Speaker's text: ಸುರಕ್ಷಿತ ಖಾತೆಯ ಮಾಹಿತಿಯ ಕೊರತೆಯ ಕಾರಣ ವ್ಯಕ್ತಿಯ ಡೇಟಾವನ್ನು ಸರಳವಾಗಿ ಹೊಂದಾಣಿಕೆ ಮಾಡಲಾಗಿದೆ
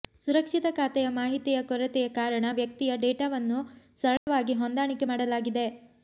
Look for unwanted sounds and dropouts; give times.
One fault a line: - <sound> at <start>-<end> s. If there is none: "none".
- dropout at 4.2-4.3 s